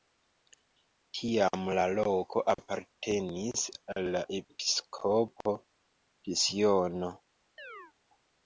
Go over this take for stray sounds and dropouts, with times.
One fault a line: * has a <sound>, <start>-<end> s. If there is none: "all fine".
* has a chirp, 7.6-7.9 s